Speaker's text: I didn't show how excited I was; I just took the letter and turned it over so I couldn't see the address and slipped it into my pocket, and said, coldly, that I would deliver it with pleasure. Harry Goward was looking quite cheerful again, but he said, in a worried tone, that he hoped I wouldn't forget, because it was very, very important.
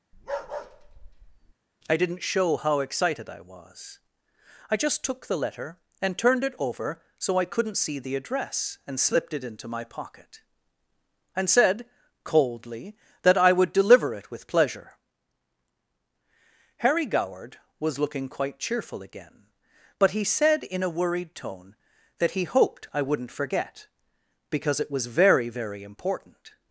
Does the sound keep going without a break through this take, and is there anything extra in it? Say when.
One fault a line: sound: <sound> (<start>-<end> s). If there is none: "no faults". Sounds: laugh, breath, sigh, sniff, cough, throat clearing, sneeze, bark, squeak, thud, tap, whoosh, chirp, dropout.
sound: bark (0.1-1.5 s)